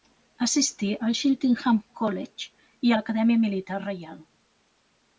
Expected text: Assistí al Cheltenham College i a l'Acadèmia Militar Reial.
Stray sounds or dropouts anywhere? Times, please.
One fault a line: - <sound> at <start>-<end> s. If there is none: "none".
none